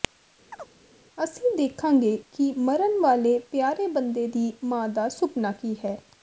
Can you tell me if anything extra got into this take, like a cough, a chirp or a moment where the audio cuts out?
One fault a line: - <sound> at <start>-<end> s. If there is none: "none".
- chirp at 0.5-0.7 s